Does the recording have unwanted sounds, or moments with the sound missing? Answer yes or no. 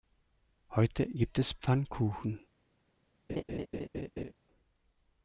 yes